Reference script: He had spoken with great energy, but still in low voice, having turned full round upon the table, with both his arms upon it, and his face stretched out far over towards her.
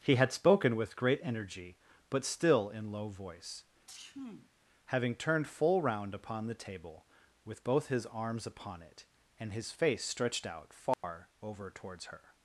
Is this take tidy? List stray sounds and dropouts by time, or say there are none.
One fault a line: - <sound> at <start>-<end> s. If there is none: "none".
- sneeze at 3.9-4.5 s
- dropout at 10.9-11.0 s